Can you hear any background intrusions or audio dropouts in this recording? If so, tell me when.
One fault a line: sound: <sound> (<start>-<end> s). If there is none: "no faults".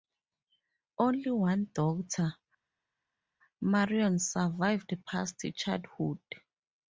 no faults